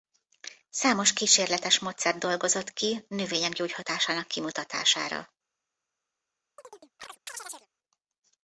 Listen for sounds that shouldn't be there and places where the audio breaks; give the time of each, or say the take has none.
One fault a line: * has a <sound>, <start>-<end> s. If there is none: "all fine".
* has a chirp, 6.6-7.7 s